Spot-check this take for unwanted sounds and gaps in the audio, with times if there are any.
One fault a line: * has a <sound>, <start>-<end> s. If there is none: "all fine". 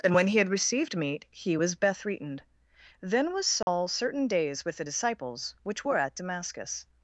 * has a dropout, 3.6-3.7 s